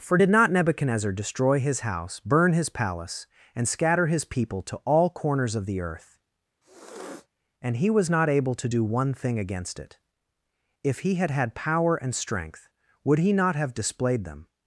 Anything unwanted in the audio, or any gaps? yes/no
yes